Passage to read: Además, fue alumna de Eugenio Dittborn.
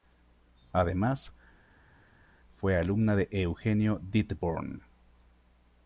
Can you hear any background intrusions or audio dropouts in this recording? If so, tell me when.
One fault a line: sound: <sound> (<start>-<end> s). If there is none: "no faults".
no faults